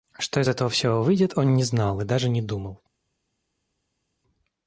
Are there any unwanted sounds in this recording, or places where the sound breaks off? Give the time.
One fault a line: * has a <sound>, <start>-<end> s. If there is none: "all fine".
all fine